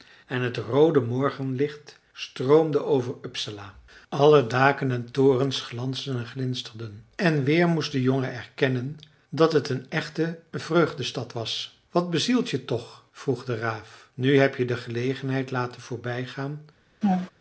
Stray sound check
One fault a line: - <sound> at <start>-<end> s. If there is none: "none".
- laugh at 17.0-17.3 s